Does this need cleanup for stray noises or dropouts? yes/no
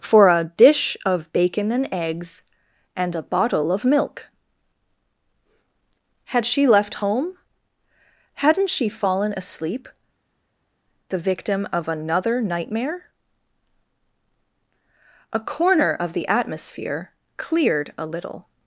no